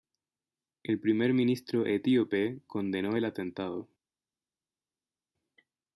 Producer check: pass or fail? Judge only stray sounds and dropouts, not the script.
pass